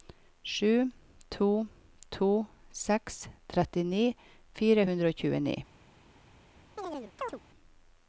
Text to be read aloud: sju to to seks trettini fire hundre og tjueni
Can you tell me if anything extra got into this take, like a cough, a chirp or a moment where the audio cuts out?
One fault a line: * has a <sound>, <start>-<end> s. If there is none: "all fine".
* has a chirp, 6.8-7.4 s